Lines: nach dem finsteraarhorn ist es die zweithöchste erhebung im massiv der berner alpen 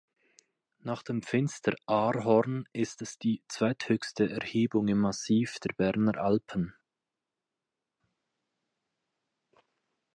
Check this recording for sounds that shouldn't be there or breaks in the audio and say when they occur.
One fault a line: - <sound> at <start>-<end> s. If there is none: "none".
none